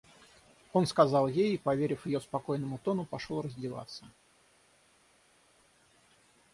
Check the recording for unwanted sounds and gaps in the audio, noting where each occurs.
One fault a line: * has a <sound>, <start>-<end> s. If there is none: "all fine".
all fine